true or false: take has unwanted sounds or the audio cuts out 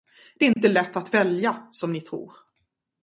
true